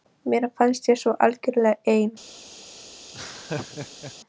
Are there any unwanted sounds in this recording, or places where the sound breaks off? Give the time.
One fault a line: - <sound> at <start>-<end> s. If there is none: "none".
- laugh at 3.1-4.1 s